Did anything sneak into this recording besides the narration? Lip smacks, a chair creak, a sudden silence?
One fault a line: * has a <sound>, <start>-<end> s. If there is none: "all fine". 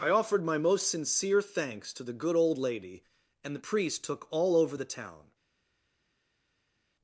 all fine